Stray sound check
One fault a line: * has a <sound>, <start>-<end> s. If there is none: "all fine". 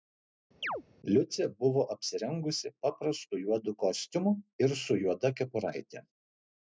* has a chirp, 0.6-0.8 s